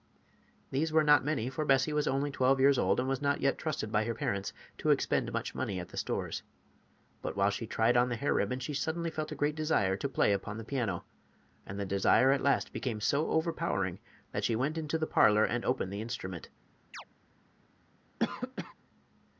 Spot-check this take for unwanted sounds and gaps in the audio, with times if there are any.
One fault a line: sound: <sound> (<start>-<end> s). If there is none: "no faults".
sound: chirp (16.9-17.0 s)
sound: cough (18.2-18.7 s)